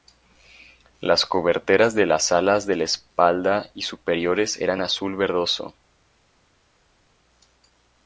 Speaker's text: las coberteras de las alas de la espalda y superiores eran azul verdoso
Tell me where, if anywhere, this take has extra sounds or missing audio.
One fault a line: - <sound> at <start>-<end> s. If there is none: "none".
none